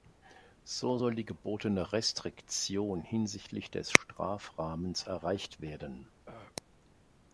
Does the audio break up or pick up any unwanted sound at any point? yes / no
yes